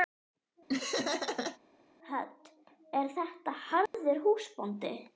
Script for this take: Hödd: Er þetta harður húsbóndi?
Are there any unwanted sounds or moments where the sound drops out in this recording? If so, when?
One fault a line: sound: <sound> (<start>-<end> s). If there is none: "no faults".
sound: laugh (0.7-1.6 s)
sound: dropout (3.9-3.9 s)